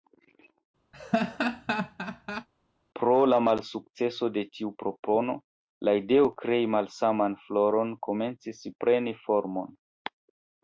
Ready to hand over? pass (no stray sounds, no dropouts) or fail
fail